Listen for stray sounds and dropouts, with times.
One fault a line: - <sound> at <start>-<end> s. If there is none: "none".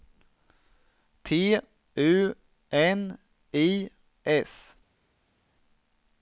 none